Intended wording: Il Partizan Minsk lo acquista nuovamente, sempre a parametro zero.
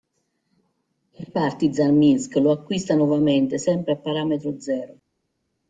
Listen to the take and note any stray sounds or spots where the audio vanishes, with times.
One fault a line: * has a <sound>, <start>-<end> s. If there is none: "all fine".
all fine